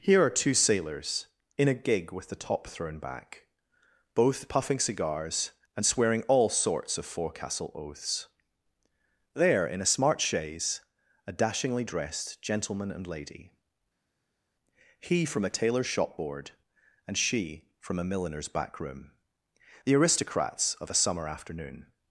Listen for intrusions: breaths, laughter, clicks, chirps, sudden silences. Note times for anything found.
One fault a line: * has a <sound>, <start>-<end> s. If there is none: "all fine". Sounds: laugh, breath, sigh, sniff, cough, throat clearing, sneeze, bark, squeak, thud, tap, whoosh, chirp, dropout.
all fine